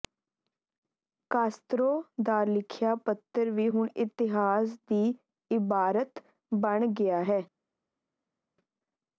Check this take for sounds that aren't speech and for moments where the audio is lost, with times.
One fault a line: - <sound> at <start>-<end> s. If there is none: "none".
none